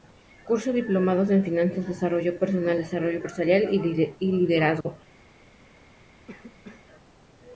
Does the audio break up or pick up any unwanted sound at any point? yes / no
yes